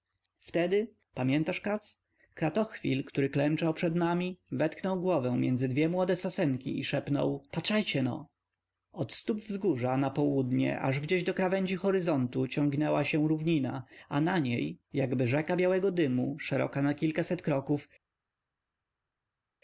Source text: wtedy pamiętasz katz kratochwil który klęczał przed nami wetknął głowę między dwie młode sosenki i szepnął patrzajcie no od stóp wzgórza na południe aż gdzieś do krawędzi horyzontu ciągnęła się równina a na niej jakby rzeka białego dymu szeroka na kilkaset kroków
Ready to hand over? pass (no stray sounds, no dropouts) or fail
pass